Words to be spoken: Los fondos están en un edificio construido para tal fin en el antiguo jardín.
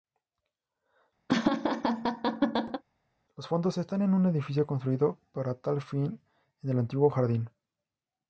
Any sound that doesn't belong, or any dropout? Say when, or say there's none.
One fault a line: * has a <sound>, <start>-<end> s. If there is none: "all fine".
* has a laugh, 1.3-2.8 s